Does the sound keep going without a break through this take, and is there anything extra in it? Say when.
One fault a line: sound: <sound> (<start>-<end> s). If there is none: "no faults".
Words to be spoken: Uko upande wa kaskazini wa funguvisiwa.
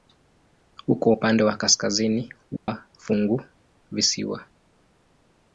sound: dropout (2.6-2.7 s)